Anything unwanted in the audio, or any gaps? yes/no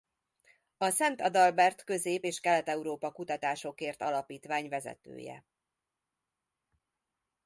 no